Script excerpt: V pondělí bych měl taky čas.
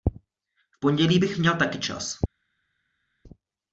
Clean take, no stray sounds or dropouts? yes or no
yes